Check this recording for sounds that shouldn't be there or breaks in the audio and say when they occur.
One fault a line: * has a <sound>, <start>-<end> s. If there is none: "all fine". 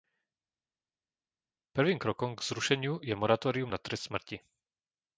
all fine